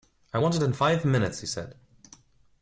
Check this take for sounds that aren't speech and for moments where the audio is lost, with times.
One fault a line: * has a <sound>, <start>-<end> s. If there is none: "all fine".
all fine